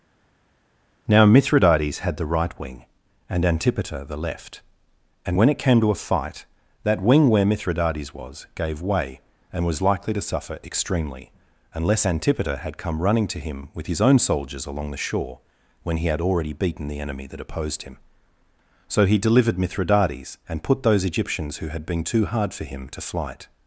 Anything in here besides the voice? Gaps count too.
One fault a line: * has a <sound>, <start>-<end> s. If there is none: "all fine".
all fine